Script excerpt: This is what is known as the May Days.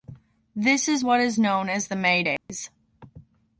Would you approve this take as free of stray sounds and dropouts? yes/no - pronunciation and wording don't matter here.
no